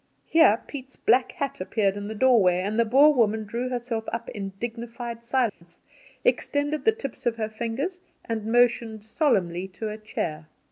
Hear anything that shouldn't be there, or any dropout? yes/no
yes